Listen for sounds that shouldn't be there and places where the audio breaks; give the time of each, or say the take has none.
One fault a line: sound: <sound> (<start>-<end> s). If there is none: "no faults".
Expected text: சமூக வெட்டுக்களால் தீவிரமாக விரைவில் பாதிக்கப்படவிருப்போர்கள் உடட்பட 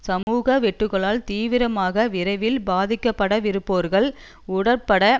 sound: dropout (0.2-0.3 s)